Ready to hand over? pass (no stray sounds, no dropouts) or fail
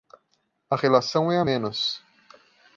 pass